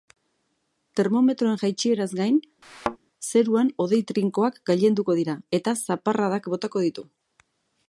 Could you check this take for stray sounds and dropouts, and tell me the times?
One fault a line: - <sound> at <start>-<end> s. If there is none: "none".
- thud at 2.6-3.0 s